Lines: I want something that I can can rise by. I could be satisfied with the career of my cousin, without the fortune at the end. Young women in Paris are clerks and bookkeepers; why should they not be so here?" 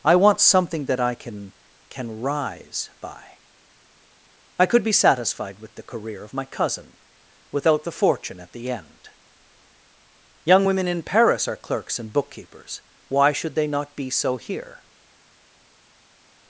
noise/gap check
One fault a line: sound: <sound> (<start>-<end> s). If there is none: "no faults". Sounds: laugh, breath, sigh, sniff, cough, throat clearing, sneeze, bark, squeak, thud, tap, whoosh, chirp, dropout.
no faults